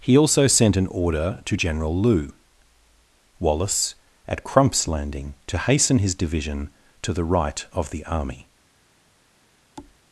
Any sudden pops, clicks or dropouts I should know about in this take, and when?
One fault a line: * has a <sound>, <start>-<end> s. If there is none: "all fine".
* has a thud, 9.8-10.0 s